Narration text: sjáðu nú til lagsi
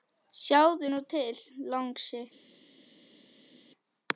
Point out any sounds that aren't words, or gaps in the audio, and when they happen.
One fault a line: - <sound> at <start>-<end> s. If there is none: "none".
none